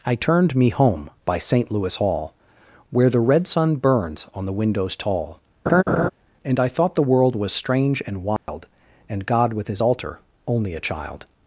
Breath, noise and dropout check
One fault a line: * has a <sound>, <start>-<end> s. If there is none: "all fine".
* has a laugh, 5.7-6.1 s
* has a dropout, 8.4-8.5 s